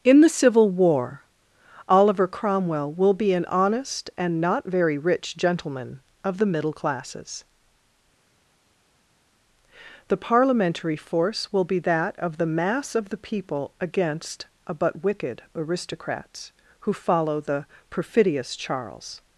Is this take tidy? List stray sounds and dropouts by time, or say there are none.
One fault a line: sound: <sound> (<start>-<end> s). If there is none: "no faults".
no faults